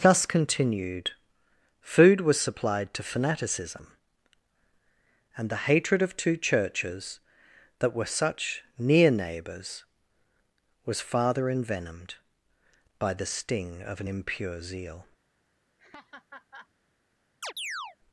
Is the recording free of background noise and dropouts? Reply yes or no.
no